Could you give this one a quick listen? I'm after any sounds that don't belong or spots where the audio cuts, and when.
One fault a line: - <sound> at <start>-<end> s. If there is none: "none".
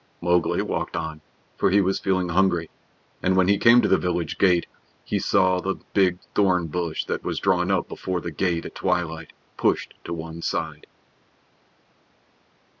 none